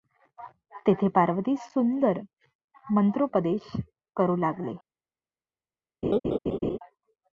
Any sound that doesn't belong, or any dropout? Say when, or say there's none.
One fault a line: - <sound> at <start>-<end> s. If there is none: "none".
- laugh at 6.0-6.8 s